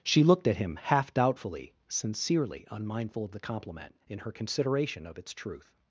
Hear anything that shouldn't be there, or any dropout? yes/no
no